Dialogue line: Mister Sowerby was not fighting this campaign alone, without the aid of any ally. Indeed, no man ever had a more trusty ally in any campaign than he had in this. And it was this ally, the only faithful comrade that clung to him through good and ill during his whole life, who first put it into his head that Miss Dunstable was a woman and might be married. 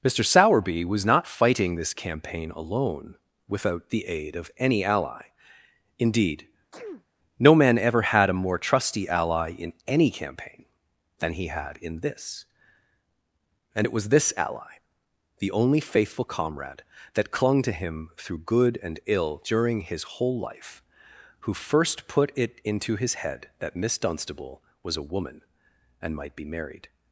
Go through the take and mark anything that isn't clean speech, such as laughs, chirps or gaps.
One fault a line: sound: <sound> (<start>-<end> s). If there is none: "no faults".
sound: sneeze (6.7-7.0 s)